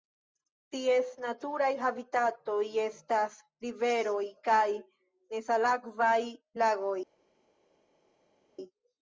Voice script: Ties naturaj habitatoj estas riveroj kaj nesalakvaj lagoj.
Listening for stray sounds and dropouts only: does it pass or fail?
pass